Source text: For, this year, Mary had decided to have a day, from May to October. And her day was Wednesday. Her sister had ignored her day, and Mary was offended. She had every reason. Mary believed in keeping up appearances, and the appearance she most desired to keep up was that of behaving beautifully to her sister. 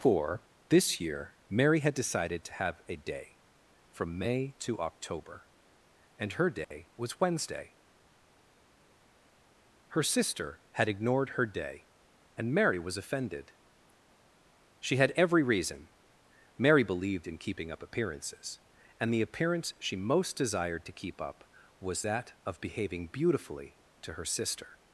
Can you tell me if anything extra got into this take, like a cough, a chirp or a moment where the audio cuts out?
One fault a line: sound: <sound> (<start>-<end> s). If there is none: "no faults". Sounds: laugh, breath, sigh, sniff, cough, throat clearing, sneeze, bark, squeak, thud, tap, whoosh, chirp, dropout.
sound: dropout (6.6-6.7 s)